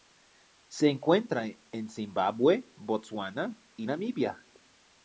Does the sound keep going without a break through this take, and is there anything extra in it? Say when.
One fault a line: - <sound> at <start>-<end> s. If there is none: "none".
none